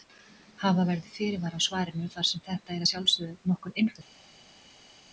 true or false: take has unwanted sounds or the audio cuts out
false